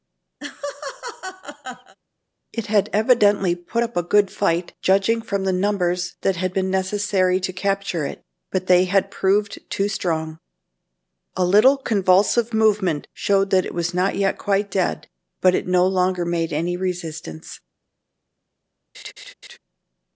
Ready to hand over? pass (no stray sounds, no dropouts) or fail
fail